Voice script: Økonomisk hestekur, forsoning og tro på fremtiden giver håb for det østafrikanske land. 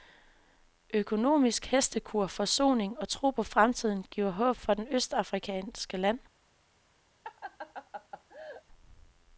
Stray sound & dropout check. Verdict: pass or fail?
fail